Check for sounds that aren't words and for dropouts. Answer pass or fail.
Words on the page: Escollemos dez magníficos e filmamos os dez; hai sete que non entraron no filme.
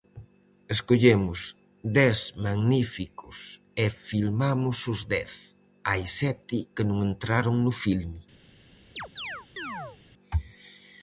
fail